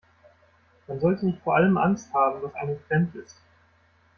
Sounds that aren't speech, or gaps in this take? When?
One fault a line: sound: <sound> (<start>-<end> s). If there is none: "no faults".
no faults